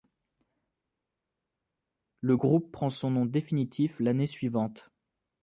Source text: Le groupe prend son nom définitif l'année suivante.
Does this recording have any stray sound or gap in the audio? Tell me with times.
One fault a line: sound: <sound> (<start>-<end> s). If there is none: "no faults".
no faults